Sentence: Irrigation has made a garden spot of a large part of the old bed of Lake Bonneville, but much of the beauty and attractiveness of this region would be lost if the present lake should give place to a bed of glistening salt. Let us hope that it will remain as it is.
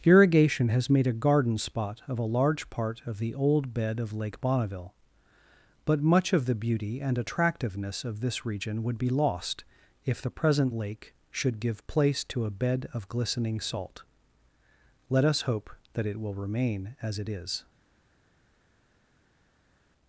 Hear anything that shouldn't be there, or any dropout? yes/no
no